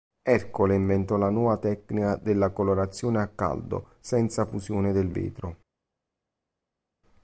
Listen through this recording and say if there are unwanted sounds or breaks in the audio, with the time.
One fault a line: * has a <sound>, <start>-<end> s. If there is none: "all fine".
all fine